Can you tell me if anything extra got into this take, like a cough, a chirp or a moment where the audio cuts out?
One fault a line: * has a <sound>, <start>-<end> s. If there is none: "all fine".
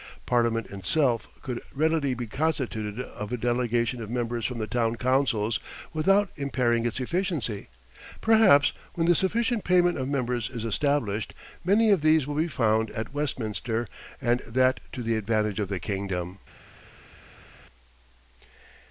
all fine